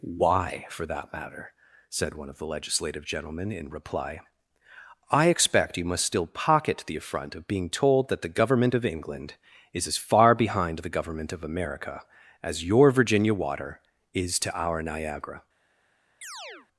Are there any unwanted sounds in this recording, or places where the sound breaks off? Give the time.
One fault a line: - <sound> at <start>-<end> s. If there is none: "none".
- chirp at 16.2-16.7 s